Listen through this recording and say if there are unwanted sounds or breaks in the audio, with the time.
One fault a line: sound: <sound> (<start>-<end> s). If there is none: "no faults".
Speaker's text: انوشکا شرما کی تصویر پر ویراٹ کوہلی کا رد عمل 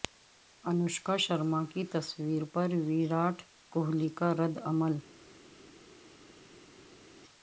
no faults